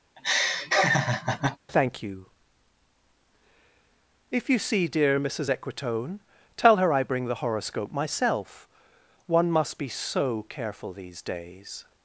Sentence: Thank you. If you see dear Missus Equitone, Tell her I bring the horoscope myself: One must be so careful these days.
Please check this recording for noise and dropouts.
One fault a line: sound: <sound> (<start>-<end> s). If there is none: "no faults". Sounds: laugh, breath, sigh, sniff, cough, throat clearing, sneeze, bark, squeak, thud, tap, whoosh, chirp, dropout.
sound: laugh (0.2-1.6 s)